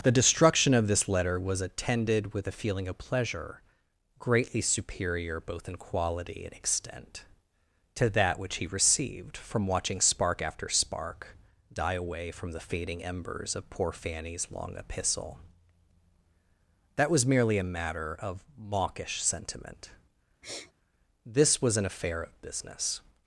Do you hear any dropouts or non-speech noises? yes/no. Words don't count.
yes